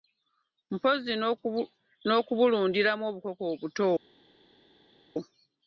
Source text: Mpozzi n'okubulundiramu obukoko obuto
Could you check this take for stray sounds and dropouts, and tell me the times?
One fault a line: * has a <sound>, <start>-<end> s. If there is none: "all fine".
all fine